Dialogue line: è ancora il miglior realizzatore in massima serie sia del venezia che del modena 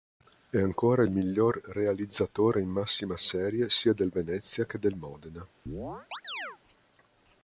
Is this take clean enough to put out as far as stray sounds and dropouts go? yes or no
no